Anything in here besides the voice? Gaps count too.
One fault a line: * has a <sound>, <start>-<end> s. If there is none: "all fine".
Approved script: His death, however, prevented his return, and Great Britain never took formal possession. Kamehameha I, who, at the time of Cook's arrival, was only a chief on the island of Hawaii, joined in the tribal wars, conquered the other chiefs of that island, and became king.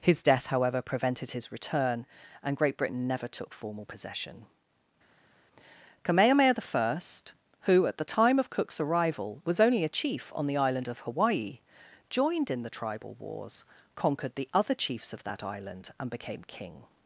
all fine